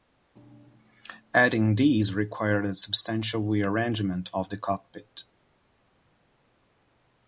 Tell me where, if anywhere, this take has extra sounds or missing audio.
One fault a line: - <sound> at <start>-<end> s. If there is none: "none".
none